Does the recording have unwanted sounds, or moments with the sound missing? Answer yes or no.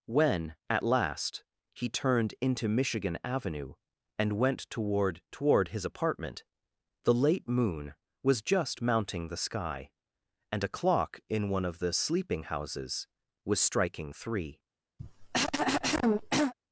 yes